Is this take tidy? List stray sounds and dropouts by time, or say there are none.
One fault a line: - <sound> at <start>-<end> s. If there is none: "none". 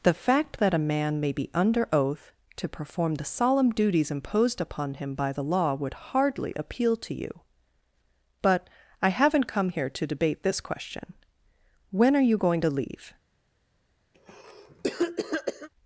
- cough at 14.1-15.7 s